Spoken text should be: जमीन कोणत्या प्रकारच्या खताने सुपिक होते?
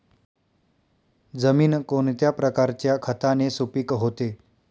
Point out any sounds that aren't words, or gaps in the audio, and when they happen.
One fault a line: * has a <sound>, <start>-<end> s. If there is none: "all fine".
all fine